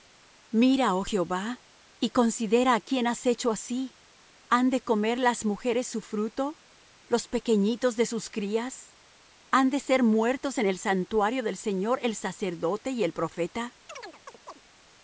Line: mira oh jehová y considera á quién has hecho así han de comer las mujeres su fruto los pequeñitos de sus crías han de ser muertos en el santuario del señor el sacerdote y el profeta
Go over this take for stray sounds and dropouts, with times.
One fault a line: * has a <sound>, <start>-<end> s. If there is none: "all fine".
* has a chirp, 13.9-14.6 s